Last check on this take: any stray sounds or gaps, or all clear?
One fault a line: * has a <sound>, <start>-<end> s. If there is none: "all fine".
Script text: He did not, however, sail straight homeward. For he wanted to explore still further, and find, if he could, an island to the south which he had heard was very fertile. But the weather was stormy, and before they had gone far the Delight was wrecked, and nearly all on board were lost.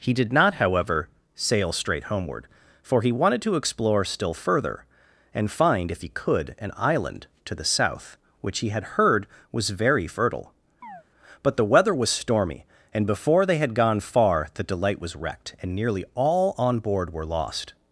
* has a chirp, 10.8-11.0 s